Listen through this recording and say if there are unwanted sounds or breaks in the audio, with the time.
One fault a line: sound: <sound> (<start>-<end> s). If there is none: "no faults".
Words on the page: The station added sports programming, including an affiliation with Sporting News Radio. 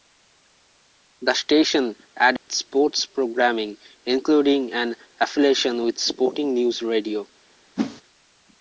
sound: dropout (2.4-2.5 s)
sound: whoosh (7.8-8.0 s)